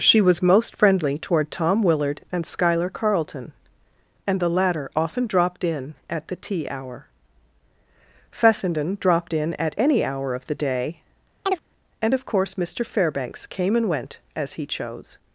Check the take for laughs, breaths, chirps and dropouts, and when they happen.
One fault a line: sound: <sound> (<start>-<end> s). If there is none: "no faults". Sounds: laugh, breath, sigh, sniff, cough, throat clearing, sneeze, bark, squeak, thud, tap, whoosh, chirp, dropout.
sound: chirp (11.4-11.7 s)